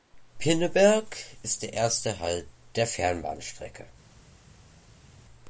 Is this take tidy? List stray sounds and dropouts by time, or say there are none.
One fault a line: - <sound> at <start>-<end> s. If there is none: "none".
none